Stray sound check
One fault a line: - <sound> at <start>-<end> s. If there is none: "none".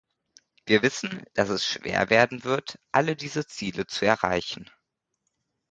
none